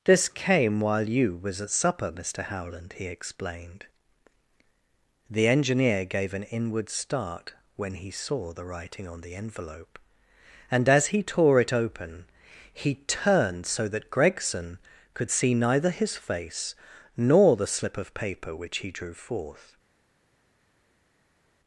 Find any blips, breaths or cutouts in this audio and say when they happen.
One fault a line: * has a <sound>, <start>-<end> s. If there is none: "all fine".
all fine